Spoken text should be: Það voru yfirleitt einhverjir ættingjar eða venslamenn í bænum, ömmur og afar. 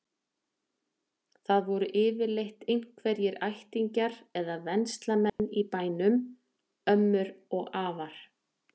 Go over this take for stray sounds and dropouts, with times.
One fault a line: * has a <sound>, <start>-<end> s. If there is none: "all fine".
* has a dropout, 5.3-5.4 s